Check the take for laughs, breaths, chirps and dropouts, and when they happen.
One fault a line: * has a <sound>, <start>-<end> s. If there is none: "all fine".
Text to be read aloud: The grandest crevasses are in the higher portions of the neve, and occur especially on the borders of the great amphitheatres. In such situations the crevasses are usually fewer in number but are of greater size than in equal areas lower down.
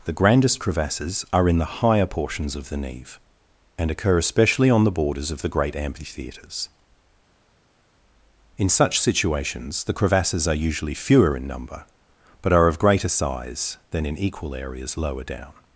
all fine